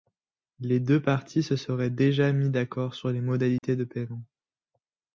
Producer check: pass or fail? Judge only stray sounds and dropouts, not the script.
fail